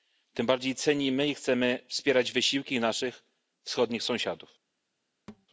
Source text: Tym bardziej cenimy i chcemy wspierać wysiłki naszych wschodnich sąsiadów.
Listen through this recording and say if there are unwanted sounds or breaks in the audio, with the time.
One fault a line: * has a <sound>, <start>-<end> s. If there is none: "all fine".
* has a thud, 5.3-5.5 s